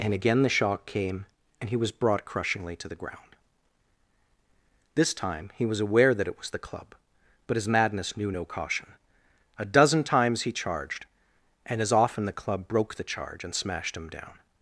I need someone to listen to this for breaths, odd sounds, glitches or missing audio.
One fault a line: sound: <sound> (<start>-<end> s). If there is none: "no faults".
no faults